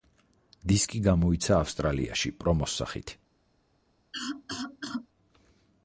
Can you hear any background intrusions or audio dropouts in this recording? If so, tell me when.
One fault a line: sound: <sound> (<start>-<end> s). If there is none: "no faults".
sound: cough (4.1-5.1 s)